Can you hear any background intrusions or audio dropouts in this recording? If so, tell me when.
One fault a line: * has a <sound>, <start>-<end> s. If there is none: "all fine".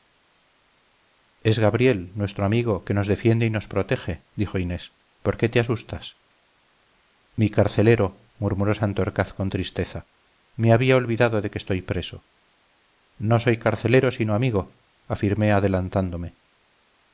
all fine